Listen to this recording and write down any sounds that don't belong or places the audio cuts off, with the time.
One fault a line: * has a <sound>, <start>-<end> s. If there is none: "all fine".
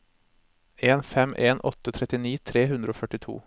all fine